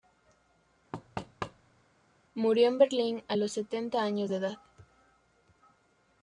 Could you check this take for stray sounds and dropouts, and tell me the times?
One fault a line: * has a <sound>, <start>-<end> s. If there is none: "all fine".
* has a thud, 0.9-1.8 s